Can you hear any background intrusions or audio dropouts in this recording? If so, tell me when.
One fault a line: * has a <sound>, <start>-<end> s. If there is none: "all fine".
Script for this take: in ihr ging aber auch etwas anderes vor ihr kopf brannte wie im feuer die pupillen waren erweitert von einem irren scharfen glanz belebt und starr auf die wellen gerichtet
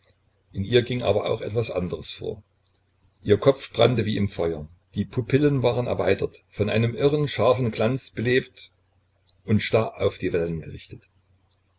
all fine